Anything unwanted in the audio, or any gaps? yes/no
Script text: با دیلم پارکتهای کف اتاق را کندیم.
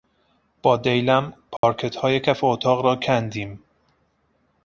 yes